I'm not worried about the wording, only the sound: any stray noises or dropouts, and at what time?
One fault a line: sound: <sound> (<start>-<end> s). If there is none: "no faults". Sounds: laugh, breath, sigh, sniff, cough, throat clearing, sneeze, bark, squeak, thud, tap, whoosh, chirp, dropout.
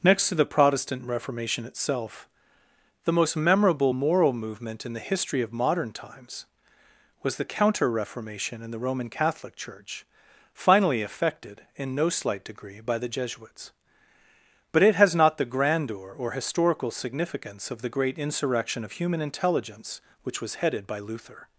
no faults